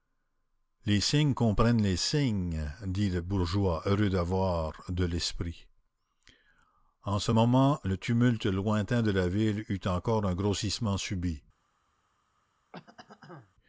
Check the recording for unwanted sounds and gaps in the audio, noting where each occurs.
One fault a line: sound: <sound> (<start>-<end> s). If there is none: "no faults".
sound: throat clearing (12.7-13.5 s)